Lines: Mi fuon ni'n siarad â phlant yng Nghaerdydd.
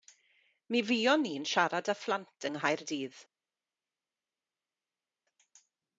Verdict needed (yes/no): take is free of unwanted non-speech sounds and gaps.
yes